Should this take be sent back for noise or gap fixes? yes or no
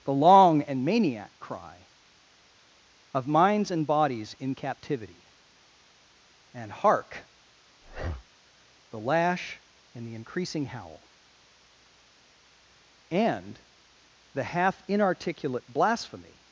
yes